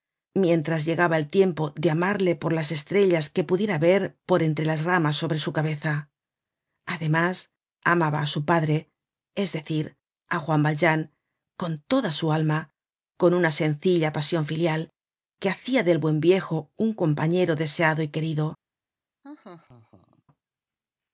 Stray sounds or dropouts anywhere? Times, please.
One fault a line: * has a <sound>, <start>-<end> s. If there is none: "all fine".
* has a laugh, 19.2-20.2 s